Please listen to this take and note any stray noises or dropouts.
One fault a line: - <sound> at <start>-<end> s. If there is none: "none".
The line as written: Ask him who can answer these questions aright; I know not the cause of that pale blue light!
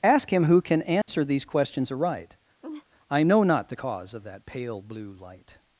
- dropout at 1.0-1.1 s
- laugh at 2.6-2.9 s